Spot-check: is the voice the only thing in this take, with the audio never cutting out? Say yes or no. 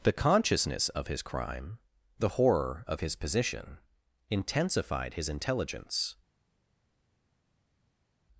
yes